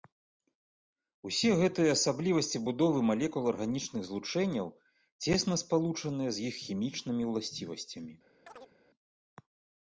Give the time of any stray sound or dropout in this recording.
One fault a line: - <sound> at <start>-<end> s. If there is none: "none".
- chirp at 8.5-8.7 s